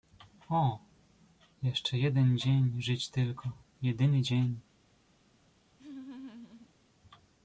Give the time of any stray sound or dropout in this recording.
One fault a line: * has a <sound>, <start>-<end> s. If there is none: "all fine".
* has a laugh, 5.8-6.7 s